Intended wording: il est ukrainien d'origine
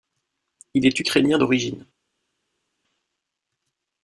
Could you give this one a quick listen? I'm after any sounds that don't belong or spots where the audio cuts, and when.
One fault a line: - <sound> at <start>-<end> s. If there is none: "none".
none